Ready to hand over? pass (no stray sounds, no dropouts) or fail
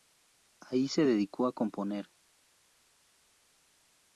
pass